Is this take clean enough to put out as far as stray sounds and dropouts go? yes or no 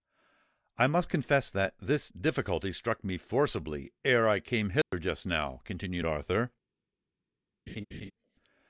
no